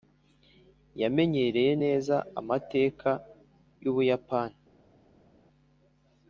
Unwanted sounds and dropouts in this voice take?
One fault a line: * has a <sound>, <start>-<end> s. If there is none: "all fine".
all fine